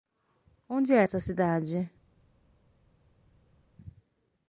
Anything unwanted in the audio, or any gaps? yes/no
no